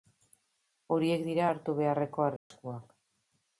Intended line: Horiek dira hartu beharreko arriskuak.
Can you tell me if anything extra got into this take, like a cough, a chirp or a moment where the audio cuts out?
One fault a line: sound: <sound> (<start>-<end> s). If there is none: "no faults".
sound: dropout (2.4-2.5 s)